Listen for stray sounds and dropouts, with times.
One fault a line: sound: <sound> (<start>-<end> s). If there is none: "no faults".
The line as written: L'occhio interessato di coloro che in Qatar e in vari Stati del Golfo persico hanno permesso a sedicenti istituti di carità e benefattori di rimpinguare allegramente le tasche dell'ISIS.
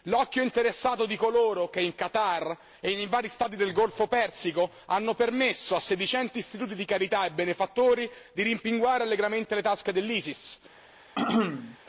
sound: throat clearing (11.2-11.8 s)